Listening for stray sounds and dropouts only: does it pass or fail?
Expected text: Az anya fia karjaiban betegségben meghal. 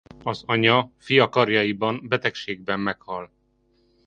pass